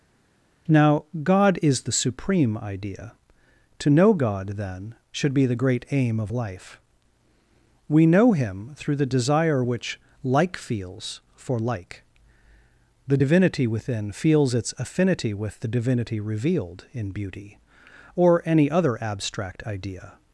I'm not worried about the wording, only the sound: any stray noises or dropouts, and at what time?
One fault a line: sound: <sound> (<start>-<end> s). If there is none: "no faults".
no faults